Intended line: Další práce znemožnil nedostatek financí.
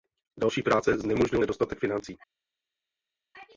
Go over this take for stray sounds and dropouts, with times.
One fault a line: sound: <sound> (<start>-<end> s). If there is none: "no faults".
no faults